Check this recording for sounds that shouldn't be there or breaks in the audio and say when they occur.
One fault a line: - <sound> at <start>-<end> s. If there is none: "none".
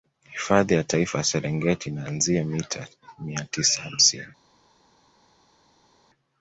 none